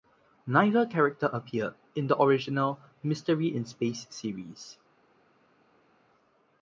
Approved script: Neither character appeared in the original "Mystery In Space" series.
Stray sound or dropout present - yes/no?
no